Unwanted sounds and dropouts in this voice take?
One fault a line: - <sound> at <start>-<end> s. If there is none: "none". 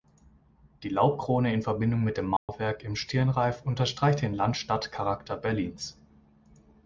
- dropout at 2.4-2.5 s